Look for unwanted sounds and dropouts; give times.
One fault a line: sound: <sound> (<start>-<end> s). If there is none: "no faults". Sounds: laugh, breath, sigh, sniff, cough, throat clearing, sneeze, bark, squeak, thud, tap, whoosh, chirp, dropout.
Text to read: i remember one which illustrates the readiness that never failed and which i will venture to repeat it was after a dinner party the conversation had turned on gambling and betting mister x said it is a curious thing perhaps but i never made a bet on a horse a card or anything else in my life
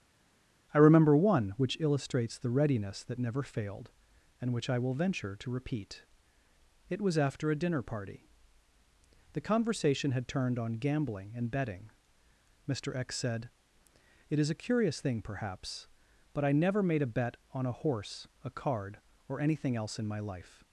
no faults